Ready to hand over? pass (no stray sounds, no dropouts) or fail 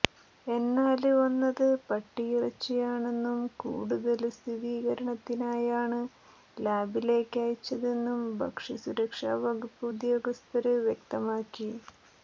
pass